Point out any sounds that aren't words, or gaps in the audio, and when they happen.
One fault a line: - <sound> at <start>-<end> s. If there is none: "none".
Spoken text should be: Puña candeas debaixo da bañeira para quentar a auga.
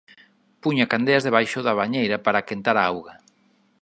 none